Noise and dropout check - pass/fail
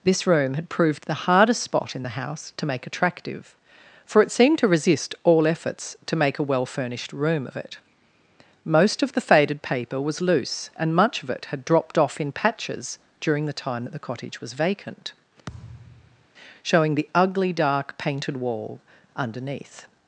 fail